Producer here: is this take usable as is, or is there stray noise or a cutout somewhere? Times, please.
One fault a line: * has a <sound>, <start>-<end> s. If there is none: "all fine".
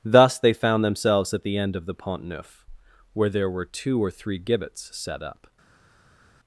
all fine